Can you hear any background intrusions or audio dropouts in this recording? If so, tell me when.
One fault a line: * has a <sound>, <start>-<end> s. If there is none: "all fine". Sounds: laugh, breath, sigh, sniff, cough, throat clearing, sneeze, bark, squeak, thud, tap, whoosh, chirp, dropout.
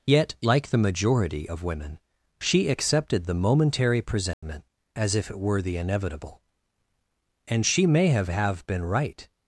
* has a dropout, 4.3-4.4 s